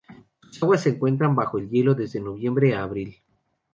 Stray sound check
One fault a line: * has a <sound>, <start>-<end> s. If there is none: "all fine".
all fine